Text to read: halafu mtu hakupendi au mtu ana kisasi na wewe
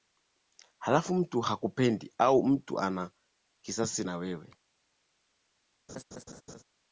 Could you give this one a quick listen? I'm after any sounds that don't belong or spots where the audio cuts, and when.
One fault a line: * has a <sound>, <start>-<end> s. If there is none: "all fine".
* has a laugh, 5.9-6.6 s